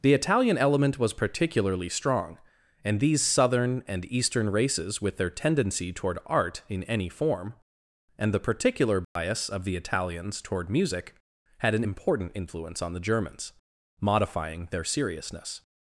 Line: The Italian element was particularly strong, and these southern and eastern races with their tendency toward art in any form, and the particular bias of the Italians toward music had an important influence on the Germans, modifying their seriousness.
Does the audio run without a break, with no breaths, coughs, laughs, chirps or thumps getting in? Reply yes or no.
no